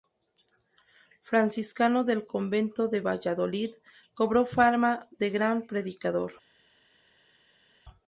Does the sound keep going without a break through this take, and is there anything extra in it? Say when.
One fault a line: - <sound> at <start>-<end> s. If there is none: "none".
none